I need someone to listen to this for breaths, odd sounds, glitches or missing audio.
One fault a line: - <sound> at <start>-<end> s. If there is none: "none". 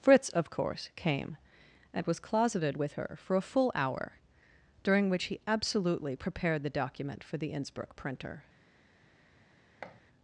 - thud at 9.8-10.0 s